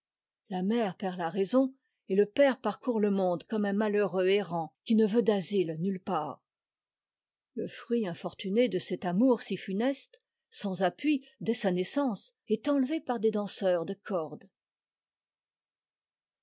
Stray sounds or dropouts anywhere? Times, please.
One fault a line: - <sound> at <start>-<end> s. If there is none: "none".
none